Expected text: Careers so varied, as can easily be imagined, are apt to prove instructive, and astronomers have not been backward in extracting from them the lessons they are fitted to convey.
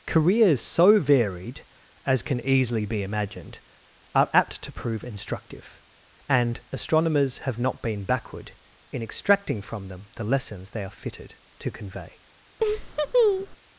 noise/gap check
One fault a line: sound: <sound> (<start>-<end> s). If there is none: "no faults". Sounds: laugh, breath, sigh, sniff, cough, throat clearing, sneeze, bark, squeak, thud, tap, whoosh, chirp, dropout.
sound: laugh (12.6-13.6 s)